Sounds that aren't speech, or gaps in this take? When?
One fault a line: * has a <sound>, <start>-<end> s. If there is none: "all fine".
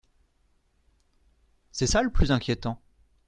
all fine